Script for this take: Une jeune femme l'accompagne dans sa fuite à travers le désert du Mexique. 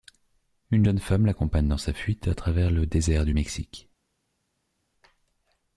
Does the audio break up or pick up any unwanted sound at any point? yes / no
no